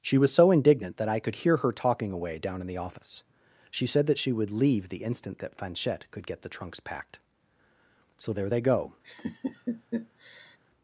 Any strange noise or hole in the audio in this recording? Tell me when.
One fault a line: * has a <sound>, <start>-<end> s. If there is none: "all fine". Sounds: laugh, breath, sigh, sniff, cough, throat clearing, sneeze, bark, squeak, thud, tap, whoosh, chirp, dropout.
* has a laugh, 9.0-10.6 s